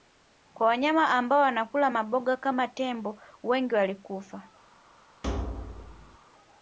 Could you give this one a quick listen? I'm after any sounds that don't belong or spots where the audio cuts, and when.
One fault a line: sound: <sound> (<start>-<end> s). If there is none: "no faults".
sound: thud (5.2-6.2 s)